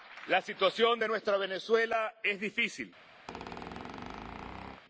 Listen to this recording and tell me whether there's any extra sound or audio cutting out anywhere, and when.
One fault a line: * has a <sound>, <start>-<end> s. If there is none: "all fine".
* has a squeak, 3.3-4.8 s